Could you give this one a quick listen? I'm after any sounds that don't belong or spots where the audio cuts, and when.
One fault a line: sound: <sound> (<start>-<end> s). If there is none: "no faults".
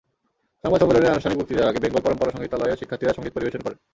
no faults